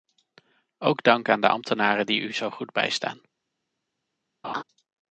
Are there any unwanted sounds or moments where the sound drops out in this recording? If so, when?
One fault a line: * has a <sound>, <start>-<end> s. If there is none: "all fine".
* has a laugh, 4.4-4.6 s